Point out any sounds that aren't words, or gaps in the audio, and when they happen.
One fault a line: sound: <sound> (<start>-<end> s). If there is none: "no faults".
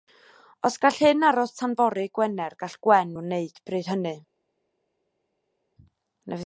no faults